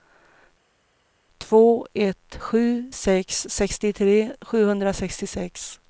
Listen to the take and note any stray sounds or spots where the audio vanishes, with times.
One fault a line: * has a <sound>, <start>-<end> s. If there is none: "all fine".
all fine